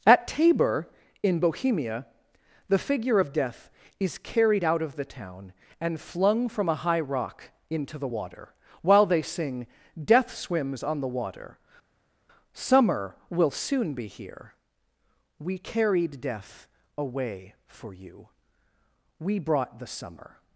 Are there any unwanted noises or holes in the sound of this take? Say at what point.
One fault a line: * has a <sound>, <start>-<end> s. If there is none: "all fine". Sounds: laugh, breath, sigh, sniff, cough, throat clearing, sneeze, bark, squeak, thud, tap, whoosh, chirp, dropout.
all fine